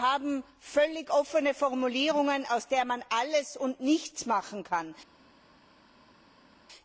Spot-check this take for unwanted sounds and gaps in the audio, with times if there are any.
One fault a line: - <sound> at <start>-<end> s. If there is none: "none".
none